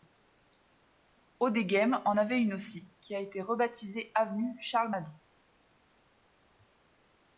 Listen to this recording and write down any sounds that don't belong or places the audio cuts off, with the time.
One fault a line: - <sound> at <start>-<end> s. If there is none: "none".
none